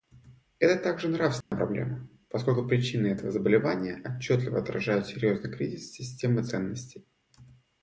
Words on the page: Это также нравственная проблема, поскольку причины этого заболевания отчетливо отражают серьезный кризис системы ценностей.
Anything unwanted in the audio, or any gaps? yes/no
yes